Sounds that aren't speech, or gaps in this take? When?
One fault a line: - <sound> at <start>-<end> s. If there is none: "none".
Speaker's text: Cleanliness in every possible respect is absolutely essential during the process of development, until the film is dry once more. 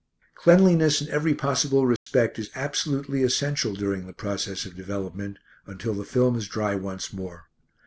- dropout at 2.0-2.1 s